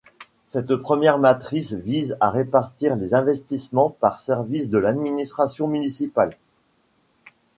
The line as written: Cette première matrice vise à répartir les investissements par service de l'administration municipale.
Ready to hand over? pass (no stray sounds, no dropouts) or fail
pass